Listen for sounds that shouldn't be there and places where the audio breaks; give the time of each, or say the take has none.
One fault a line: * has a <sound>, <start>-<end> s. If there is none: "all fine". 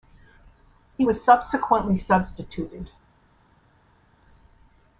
all fine